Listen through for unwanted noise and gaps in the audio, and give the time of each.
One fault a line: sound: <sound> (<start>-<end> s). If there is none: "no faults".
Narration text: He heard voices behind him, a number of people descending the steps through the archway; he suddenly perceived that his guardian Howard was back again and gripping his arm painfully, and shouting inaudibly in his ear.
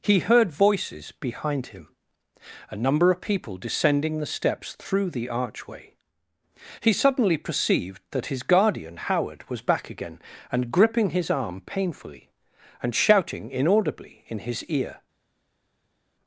no faults